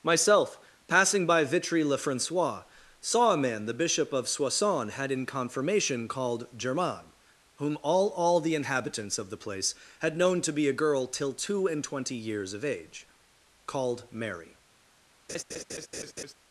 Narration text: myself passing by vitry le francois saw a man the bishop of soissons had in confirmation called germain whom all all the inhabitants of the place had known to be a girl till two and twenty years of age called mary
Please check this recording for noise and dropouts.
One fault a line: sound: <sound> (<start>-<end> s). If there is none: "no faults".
sound: laugh (15.3-16.3 s)